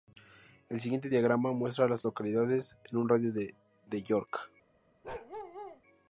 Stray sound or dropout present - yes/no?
yes